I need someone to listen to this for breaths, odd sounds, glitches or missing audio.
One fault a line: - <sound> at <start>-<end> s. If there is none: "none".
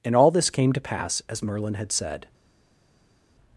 none